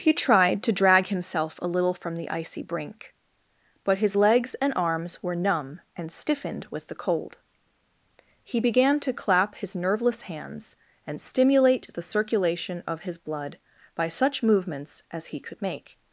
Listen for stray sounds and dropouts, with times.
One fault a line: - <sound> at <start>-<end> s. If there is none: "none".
none